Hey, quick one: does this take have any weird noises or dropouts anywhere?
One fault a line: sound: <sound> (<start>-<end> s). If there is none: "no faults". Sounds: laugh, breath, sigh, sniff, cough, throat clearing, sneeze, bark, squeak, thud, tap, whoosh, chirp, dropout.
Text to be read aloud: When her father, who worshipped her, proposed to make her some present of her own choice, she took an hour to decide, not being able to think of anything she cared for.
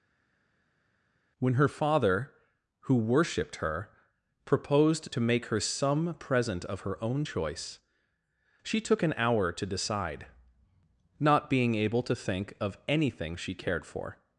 no faults